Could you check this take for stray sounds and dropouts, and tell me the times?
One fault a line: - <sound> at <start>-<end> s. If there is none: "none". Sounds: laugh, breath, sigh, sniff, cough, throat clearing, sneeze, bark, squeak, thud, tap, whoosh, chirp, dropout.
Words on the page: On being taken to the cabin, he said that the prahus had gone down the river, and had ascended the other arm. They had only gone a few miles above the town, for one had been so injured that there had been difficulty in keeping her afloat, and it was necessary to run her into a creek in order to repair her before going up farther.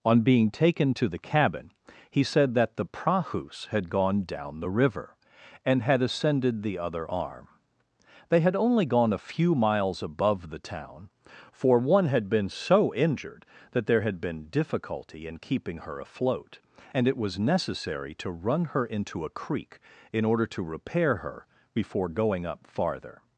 none